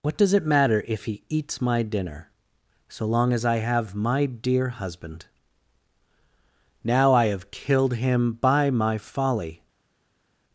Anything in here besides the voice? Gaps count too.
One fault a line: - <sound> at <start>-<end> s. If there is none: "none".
none